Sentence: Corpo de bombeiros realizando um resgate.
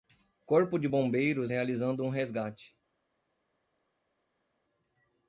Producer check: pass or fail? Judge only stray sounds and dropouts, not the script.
pass